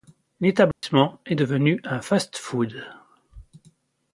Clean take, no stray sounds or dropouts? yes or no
no